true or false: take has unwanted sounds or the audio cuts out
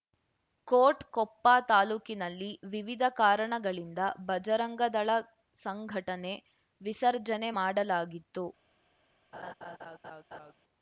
true